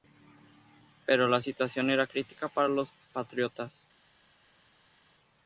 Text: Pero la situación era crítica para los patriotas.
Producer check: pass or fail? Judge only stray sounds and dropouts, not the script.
pass